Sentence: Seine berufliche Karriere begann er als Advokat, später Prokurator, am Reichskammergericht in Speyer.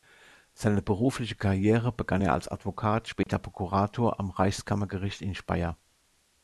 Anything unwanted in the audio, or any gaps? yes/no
yes